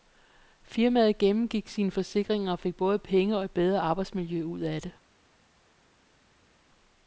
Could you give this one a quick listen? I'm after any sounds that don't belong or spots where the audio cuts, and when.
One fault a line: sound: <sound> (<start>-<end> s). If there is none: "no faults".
no faults